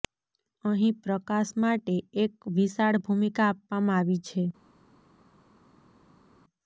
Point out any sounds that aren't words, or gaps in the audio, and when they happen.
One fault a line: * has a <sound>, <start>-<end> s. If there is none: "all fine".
all fine